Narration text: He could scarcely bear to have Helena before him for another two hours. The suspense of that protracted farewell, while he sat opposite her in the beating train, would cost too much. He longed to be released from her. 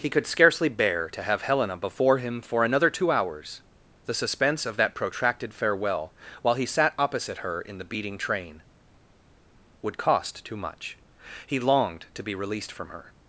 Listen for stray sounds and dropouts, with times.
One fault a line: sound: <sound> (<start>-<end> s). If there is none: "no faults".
no faults